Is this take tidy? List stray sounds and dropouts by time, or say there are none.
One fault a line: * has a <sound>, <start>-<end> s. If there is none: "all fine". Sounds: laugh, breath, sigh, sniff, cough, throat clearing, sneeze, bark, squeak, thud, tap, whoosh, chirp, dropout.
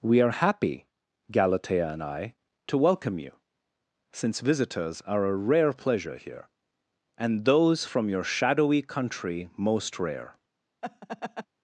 * has a laugh, 10.8-11.5 s